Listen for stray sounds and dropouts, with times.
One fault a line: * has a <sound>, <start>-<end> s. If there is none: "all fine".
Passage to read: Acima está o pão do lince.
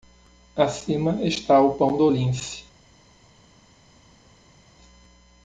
all fine